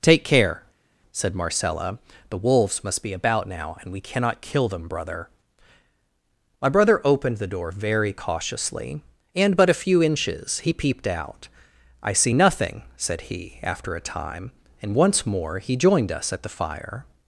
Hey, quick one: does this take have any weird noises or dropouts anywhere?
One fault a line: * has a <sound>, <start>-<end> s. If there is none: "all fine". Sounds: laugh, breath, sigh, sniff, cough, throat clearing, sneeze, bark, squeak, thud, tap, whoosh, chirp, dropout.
all fine